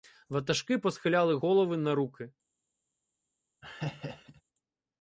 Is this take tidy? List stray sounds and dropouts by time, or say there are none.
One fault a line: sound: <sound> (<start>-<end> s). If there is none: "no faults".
sound: laugh (3.6-4.4 s)